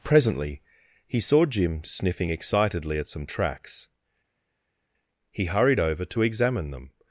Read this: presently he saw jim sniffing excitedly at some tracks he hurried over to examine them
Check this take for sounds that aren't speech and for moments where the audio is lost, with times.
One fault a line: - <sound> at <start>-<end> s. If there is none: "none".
none